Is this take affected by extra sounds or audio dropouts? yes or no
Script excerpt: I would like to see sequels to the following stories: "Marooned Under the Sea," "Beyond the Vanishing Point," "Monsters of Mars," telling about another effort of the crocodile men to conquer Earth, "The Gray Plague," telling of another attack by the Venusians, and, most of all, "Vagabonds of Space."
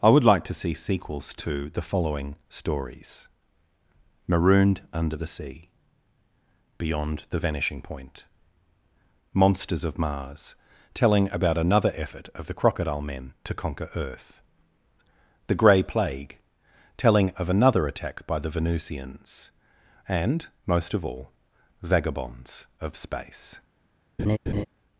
yes